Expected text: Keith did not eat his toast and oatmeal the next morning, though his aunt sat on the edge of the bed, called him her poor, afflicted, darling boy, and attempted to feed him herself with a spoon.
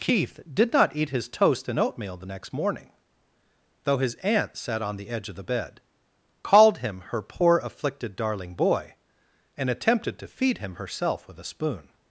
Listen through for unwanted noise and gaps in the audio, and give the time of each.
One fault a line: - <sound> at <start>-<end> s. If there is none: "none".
none